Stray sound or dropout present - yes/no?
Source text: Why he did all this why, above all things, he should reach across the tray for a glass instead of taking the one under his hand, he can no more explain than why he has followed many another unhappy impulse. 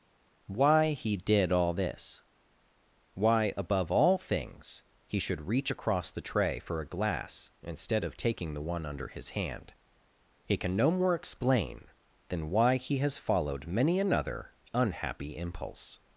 no